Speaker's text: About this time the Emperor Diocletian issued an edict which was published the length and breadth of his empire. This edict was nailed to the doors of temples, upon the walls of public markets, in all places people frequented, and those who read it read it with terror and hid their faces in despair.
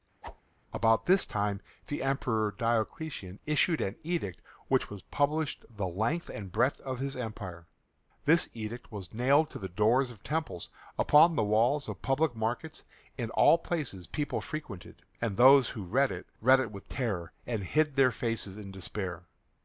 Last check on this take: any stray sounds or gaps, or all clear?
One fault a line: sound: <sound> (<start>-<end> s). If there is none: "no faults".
sound: whoosh (0.2-0.4 s)